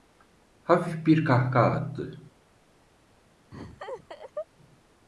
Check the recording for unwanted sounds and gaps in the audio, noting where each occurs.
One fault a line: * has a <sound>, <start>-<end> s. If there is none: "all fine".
* has a laugh, 3.5-4.5 s